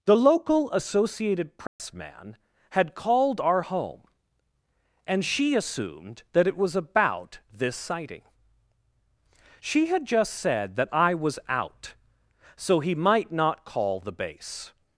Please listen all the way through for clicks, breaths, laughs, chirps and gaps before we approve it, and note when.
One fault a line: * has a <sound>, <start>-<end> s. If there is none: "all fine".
* has a dropout, 1.7-1.8 s